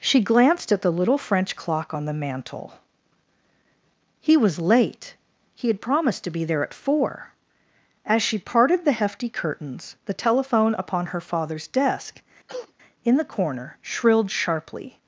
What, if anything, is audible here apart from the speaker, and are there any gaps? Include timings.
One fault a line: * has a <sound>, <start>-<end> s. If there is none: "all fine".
* has a cough, 12.5-12.7 s